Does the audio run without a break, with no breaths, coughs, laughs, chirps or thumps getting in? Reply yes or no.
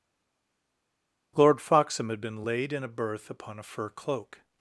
yes